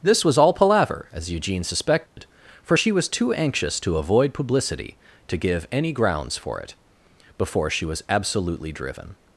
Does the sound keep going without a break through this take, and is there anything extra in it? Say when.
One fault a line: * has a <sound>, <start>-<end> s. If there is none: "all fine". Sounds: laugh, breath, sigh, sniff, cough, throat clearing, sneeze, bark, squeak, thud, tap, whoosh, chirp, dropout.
* has a dropout, 2.1-2.2 s